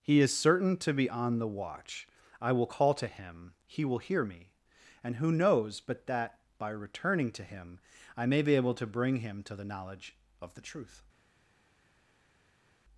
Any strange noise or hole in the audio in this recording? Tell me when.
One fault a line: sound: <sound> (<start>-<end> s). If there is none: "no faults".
no faults